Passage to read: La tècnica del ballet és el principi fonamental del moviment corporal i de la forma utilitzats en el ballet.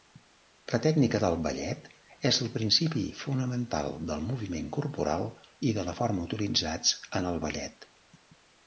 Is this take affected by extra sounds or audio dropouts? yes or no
no